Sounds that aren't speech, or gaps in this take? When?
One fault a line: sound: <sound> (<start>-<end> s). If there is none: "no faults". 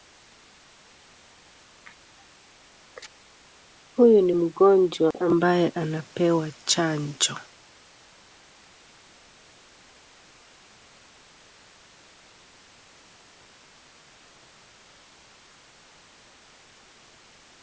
sound: dropout (5.1-5.1 s)